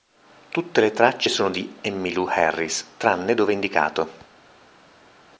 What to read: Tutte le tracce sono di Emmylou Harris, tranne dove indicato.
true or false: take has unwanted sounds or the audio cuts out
false